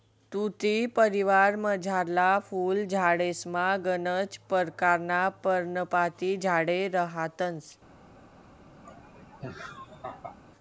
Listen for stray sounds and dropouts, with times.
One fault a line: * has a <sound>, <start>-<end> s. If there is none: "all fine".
* has a laugh, 8.8-10.4 s